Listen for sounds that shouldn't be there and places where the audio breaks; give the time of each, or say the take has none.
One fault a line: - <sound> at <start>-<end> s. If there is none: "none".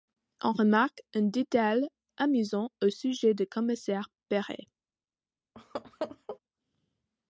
- laugh at 5.5-6.4 s